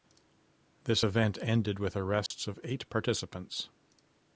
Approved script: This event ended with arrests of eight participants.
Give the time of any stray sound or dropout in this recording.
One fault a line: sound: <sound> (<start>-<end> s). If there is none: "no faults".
sound: dropout (2.3-2.3 s)